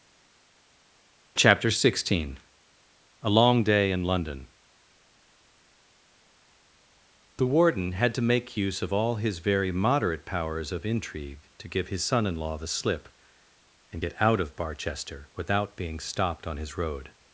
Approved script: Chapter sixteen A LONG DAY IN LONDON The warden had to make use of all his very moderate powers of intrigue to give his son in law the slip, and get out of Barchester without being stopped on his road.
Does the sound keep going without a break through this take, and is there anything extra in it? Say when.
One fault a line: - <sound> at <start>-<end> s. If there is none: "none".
none